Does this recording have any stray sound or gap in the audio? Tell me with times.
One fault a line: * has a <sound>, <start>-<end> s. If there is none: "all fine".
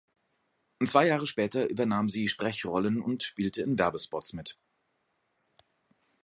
all fine